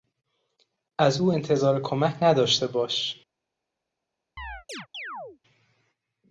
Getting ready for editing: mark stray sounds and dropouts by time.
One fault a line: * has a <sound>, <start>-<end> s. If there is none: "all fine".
* has a chirp, 4.4-5.4 s